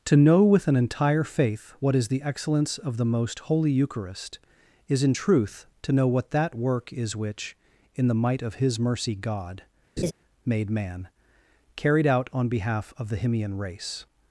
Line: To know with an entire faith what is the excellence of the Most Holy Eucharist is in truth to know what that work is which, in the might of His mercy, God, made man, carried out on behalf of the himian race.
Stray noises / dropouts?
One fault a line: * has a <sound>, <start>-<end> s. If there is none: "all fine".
* has a laugh, 10.0-10.1 s